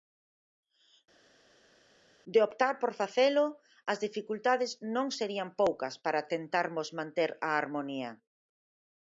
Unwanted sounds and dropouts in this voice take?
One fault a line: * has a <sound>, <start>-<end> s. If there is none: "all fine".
all fine